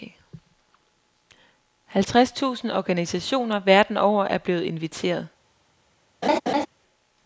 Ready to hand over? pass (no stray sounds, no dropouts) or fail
fail